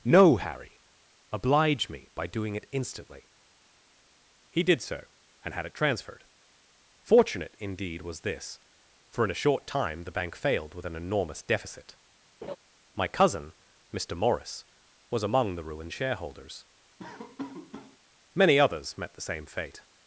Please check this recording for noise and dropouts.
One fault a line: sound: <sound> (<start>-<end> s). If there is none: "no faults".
sound: laugh (12.4-12.6 s)
sound: laugh (17.0-18.0 s)